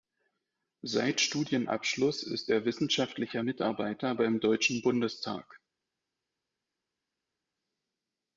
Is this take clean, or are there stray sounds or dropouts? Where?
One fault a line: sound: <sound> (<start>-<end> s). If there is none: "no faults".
no faults